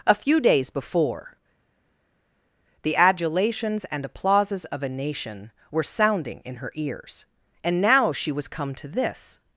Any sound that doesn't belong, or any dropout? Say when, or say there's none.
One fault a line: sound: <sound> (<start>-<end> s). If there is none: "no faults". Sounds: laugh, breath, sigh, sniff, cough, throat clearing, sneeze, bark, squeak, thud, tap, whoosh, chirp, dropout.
no faults